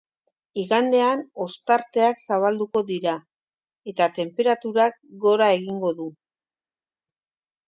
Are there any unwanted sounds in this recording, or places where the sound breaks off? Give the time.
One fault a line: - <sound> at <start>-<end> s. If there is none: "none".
none